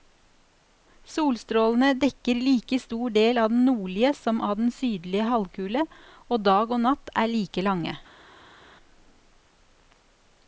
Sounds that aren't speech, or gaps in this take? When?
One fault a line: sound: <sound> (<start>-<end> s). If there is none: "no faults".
no faults